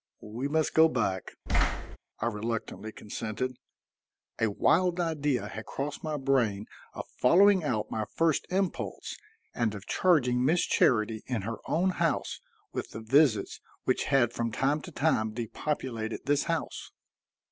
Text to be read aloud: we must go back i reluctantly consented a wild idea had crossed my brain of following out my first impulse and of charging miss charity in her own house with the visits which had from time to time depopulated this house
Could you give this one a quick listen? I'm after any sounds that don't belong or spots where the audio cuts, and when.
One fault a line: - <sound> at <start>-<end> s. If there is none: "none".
- thud at 1.5-2.0 s